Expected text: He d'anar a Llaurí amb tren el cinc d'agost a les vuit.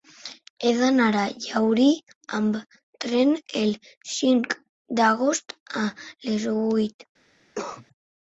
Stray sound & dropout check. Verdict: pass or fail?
fail